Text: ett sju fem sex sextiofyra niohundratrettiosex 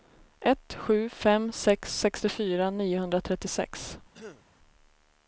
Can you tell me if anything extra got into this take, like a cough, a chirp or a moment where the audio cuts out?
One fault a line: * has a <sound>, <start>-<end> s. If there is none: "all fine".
* has a throat clearing, 4.1-4.4 s